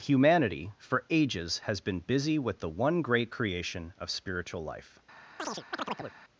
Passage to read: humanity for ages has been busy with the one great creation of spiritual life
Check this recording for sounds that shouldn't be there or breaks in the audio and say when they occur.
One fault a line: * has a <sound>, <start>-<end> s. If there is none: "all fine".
* has a chirp, 5.4-6.2 s